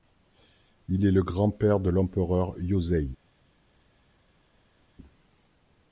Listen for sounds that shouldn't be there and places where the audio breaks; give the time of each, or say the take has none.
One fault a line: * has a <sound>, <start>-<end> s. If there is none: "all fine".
all fine